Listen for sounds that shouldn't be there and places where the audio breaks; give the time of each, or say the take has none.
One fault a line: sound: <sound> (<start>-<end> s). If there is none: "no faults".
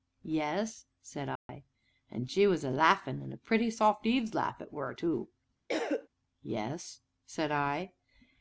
sound: dropout (1.4-1.5 s)
sound: cough (5.7-6.1 s)